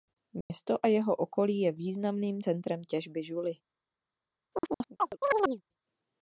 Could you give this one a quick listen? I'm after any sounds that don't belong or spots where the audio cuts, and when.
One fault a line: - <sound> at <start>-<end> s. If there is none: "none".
- dropout at 0.4-0.5 s
- chirp at 4.5-5.6 s